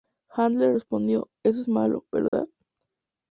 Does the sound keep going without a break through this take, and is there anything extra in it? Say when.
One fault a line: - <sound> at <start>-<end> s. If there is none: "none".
- dropout at 2.3-2.3 s